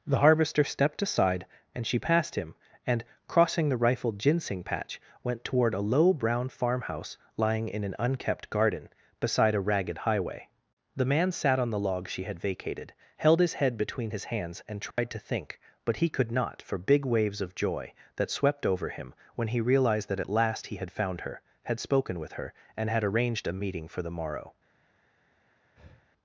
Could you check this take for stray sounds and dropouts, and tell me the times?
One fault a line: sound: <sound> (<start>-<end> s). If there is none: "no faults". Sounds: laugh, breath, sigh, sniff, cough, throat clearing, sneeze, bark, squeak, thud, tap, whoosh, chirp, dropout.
sound: dropout (14.9-15.0 s)
sound: breath (25.8-26.1 s)